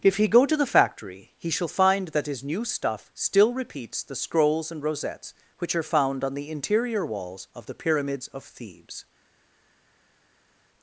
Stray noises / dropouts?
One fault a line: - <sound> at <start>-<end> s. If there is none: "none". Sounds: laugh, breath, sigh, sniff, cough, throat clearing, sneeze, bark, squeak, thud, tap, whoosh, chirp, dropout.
none